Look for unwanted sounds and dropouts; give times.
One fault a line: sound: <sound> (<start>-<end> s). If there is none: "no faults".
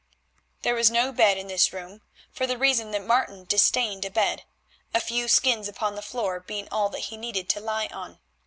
no faults